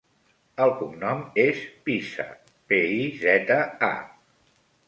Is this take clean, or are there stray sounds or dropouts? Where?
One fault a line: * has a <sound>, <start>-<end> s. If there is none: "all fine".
all fine